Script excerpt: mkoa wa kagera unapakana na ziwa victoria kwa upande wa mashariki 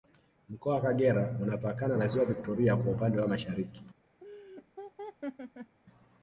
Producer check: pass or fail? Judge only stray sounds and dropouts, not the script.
fail